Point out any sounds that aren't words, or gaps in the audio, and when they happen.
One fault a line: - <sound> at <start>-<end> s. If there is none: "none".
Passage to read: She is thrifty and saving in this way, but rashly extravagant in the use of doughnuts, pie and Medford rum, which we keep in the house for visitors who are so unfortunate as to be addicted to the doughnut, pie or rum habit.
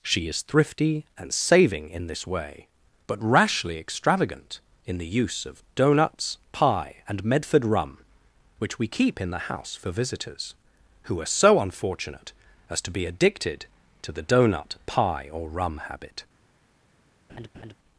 - laugh at 17.3-17.7 s